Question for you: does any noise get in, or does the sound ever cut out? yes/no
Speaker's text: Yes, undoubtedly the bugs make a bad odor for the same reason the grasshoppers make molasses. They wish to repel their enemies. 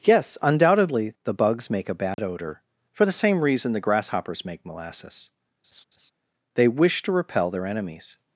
yes